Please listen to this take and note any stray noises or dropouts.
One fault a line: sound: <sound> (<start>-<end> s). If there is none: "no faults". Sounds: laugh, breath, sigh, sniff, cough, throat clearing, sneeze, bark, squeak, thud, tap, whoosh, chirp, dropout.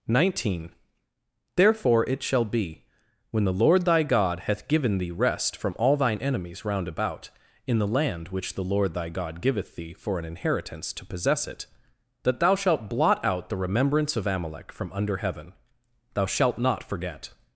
no faults